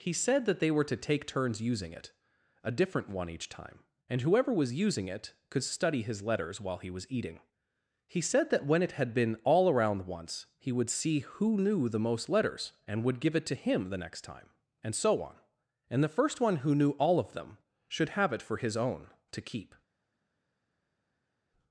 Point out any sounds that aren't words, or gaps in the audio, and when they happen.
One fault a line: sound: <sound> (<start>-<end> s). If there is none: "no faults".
no faults